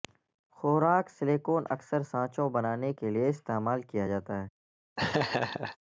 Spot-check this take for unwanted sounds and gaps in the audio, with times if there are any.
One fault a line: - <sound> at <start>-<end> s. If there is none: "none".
- laugh at 5.0-5.8 s